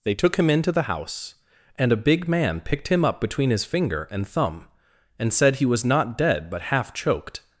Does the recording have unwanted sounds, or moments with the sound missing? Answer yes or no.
no